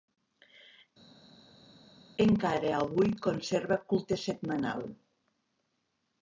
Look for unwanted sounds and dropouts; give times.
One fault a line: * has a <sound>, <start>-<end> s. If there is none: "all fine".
all fine